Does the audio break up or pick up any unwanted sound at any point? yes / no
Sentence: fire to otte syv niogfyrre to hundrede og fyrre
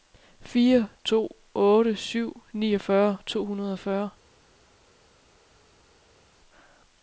no